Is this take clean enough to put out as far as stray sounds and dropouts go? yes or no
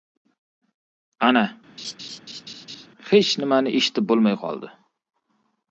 no